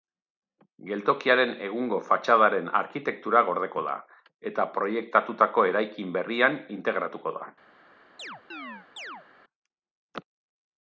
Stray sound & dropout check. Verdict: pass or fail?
fail